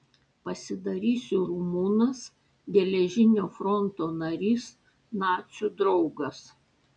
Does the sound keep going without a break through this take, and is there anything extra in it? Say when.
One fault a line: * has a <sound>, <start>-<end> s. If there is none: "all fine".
all fine